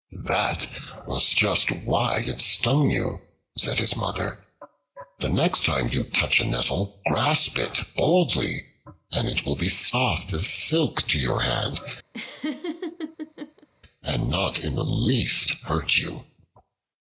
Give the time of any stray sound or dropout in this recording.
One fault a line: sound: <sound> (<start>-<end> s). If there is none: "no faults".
sound: laugh (12.1-13.7 s)